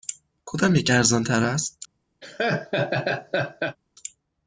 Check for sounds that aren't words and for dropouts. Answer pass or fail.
fail